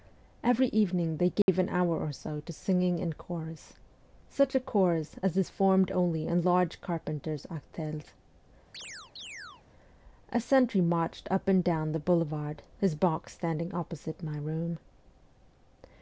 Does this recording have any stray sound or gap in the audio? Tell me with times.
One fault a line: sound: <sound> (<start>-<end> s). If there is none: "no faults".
sound: dropout (1.4-1.5 s)
sound: chirp (8.7-9.6 s)